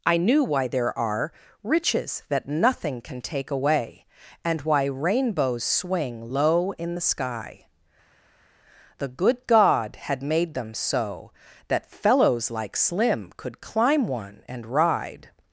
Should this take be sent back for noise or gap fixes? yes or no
no